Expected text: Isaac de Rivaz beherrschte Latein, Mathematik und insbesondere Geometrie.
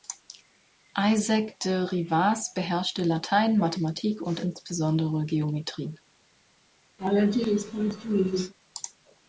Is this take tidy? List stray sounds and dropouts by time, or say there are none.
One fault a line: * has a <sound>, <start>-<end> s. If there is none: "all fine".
* has a laugh, 7.0-8.5 s